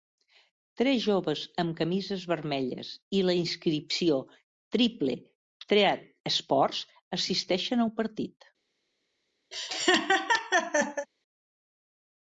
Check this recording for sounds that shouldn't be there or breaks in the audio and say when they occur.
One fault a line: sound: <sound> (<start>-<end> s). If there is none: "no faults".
sound: laugh (9.5-11.1 s)